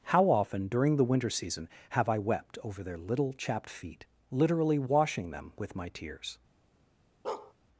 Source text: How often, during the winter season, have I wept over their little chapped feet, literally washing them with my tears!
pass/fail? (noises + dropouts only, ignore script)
fail